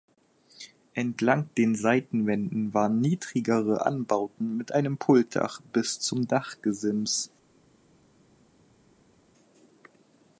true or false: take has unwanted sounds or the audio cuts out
false